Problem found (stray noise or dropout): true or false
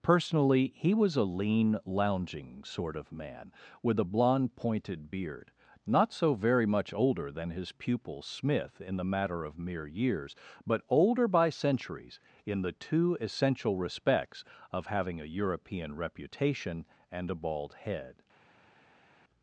false